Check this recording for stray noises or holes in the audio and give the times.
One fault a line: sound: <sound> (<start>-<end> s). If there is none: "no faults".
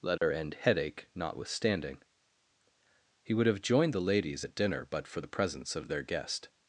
sound: dropout (0.2-0.2 s)